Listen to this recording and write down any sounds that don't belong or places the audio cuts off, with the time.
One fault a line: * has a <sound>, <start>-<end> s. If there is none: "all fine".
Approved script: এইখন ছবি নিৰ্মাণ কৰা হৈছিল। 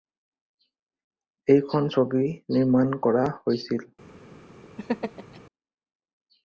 * has a laugh, 4.8-5.4 s